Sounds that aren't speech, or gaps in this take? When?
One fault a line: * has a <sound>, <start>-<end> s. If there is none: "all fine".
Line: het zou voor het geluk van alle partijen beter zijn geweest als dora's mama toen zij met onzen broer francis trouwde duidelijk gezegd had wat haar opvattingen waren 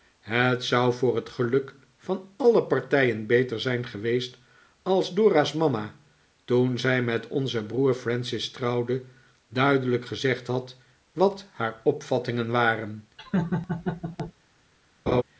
* has a laugh, 13.2-14.3 s
* has a laugh, 15.1-15.2 s